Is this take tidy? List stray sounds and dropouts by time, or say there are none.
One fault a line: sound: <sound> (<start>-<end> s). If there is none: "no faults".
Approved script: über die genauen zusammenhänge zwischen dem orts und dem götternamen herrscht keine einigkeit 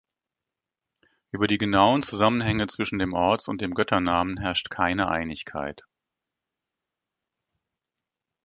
no faults